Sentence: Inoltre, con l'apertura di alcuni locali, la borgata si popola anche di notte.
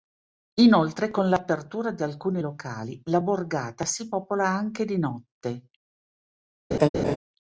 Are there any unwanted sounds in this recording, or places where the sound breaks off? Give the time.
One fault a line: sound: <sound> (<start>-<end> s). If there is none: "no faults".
sound: laugh (6.7-7.2 s)